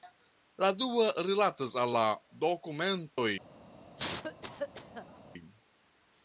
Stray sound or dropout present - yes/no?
yes